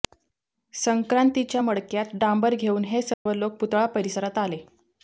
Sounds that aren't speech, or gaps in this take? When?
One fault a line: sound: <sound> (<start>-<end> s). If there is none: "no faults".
sound: dropout (3.1-3.3 s)